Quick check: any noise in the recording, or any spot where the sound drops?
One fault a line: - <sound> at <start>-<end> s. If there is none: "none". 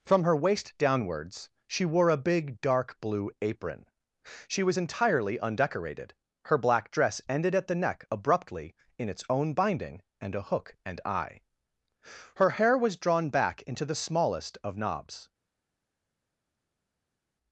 none